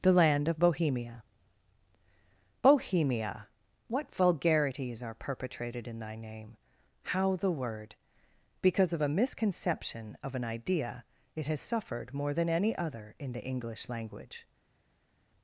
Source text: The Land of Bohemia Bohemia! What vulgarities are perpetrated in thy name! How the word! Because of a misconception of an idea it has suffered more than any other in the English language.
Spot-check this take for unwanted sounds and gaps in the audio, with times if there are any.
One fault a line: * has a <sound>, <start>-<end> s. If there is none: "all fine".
all fine